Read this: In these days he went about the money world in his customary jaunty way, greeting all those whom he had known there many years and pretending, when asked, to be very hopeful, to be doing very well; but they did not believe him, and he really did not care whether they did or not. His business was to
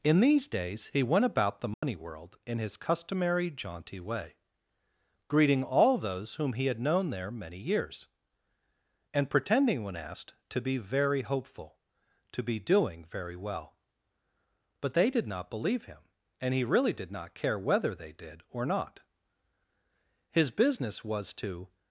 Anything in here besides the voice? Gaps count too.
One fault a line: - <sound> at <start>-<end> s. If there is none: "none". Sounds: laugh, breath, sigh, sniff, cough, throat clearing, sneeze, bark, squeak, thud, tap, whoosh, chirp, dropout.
- dropout at 1.7-1.8 s